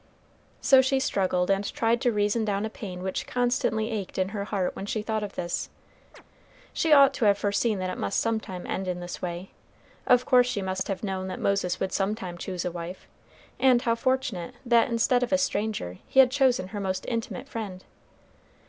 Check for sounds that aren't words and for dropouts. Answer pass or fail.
fail